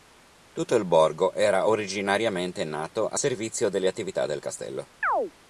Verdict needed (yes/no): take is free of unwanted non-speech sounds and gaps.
no